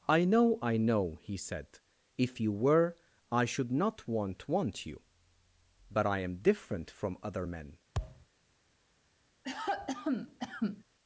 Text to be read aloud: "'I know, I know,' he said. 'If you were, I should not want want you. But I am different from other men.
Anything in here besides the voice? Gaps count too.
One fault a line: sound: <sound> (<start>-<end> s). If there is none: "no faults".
sound: thud (7.9-8.3 s)
sound: cough (9.4-10.8 s)